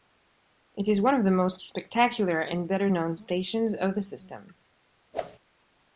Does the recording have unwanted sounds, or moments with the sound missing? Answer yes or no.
yes